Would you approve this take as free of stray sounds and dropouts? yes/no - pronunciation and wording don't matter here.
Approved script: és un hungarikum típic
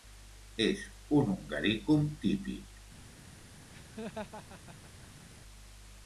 no